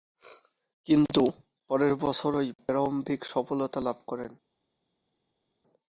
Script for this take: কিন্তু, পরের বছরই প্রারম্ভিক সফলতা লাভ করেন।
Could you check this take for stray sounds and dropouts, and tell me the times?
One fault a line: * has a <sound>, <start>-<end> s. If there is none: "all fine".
all fine